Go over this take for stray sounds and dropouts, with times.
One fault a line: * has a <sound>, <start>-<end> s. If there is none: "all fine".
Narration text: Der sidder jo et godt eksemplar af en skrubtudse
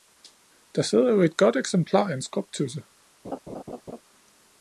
* has a laugh, 3.2-4.0 s